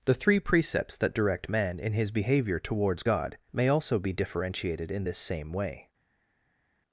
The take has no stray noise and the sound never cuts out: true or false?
true